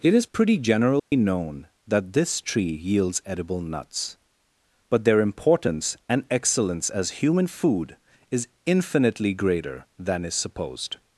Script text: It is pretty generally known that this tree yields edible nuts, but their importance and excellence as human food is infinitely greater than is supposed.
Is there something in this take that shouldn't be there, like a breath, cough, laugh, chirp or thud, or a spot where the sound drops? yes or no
yes